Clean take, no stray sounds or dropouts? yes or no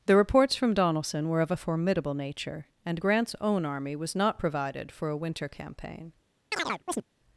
no